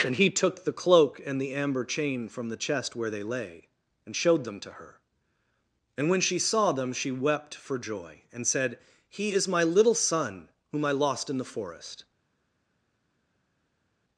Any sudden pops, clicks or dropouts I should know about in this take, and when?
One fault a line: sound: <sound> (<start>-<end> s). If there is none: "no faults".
no faults